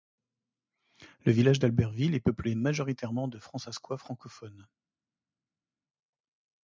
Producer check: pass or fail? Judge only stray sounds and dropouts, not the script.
pass